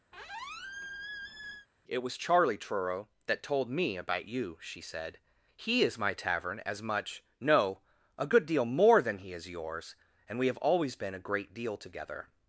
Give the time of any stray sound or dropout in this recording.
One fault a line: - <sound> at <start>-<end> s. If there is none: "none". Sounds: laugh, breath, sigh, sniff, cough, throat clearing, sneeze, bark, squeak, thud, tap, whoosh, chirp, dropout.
- squeak at 0.1-1.7 s